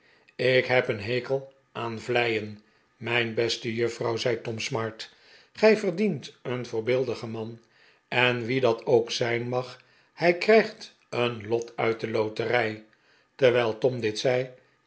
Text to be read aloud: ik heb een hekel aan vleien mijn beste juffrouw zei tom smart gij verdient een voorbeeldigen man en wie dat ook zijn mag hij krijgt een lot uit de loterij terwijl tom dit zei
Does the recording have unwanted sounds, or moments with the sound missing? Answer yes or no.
no